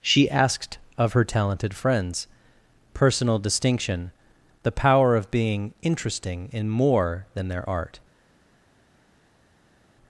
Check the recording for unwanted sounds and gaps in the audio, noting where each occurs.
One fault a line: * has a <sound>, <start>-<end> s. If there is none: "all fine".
all fine